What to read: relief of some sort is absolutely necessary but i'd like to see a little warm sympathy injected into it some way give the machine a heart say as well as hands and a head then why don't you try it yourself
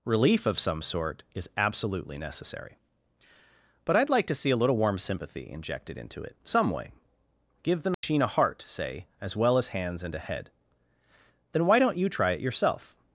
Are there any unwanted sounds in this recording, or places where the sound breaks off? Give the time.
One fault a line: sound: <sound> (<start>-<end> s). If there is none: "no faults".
sound: dropout (7.9-8.0 s)